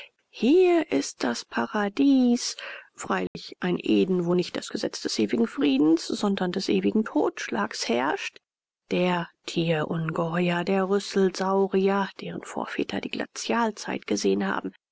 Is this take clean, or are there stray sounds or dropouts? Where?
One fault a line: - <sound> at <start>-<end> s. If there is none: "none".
- dropout at 3.3-3.4 s